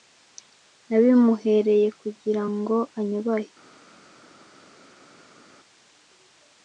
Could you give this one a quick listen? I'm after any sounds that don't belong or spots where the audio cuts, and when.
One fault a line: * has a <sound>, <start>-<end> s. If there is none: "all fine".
all fine